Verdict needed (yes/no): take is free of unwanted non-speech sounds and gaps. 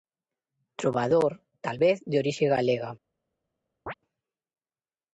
no